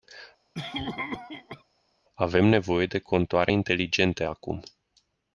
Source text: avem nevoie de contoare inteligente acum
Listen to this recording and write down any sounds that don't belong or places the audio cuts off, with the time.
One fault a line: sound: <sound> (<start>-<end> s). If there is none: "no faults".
sound: cough (0.5-1.6 s)